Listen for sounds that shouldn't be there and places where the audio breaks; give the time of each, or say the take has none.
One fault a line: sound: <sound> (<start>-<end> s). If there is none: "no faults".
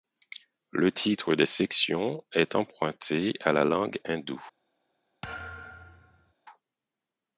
sound: thud (5.2-6.3 s)